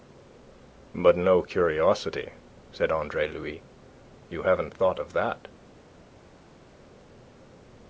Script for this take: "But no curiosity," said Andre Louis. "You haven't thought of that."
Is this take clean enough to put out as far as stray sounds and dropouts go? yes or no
yes